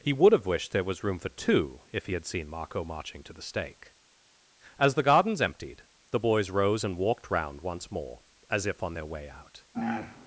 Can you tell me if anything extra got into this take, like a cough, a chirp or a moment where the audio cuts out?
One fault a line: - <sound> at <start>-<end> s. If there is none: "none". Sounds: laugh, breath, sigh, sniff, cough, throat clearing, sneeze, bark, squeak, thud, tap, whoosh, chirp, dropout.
none